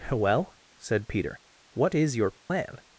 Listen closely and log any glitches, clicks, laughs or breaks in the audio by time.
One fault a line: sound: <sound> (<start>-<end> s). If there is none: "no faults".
sound: dropout (2.4-2.5 s)